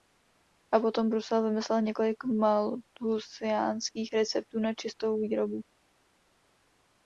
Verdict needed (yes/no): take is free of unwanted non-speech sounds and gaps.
yes